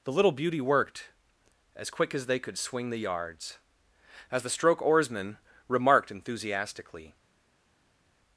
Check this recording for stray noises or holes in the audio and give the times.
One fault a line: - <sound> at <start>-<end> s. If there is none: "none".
none